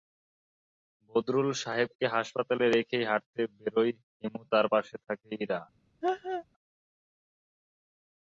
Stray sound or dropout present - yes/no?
yes